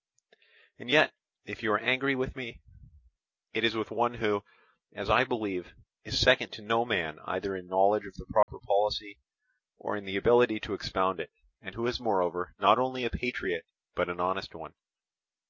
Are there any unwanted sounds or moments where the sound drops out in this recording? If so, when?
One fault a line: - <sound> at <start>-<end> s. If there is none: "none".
- dropout at 8.4-8.5 s